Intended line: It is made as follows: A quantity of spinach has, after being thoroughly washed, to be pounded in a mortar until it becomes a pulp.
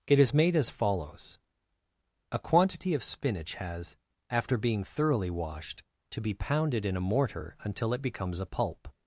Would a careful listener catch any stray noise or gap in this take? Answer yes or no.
no